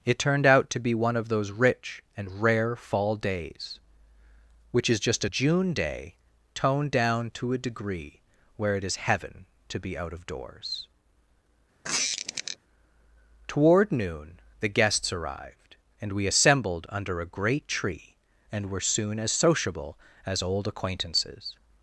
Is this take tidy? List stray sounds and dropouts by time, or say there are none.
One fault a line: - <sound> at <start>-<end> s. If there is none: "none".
- squeak at 11.8-12.6 s